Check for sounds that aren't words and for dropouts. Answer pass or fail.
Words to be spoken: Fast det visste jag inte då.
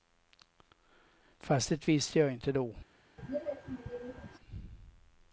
fail